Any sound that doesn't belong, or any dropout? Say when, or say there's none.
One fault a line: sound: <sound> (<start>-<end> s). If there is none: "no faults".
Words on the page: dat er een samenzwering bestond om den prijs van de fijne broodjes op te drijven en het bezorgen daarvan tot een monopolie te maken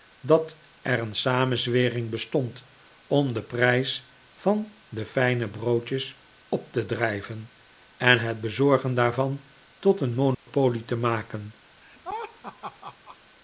sound: dropout (10.3-10.5 s)
sound: laugh (11.8-13.2 s)